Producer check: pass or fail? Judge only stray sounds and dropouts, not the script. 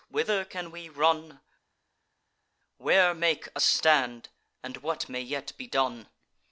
pass